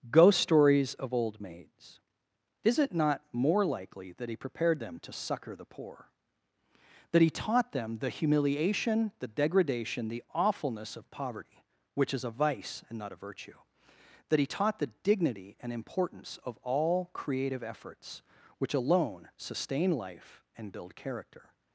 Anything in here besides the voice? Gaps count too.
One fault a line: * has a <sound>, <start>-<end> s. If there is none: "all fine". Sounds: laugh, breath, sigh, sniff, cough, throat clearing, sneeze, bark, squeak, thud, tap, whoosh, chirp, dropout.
all fine